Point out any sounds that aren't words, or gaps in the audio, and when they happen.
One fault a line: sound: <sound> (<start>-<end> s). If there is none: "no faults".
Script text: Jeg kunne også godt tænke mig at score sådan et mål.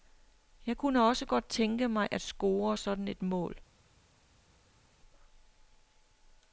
no faults